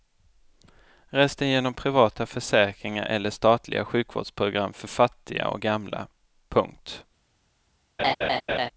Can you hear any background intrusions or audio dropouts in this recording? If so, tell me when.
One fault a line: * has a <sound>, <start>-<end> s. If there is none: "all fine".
* has a laugh, 8.0-8.7 s